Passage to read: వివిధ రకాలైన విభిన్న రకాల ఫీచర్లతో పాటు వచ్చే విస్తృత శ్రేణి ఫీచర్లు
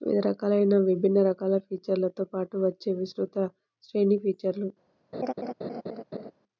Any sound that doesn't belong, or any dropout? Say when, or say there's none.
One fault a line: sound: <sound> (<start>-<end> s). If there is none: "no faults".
sound: laugh (5.1-6.3 s)